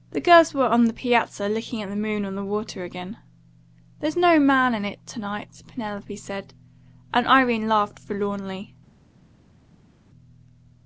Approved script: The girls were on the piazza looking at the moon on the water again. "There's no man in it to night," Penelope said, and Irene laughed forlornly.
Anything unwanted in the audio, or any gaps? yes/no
no